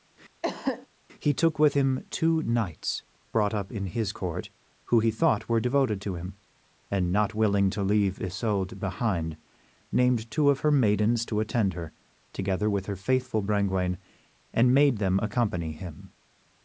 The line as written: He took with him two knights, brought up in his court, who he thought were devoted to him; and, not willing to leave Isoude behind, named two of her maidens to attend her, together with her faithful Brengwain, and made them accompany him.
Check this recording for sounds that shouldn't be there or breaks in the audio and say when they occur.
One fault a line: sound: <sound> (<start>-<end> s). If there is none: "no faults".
sound: cough (0.4-0.9 s)